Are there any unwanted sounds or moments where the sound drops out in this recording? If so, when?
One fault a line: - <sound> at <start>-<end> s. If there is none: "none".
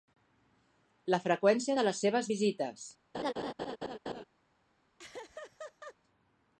- laugh at 3.1-4.2 s
- laugh at 5.0-6.0 s